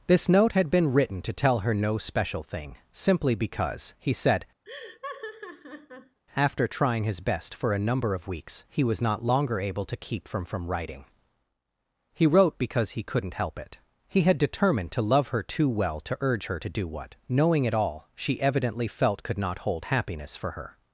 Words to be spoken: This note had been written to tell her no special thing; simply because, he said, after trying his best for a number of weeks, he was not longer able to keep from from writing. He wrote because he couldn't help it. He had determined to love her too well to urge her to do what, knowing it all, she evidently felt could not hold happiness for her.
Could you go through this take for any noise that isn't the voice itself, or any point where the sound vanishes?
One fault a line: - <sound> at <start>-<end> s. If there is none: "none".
- laugh at 4.6-6.2 s